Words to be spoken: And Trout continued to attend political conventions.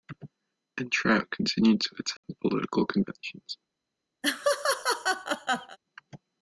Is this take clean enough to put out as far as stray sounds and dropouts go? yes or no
no